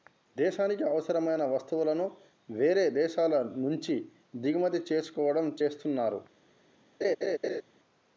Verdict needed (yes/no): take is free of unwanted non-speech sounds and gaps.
no